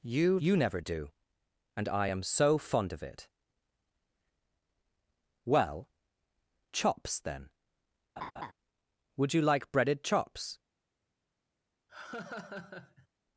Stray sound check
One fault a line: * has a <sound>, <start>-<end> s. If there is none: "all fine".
* has a laugh, 8.2-8.5 s
* has a laugh, 11.9-13.1 s